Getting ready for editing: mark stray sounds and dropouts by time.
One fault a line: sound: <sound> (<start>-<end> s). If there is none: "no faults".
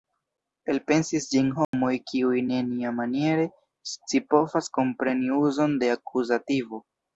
sound: dropout (1.6-1.7 s)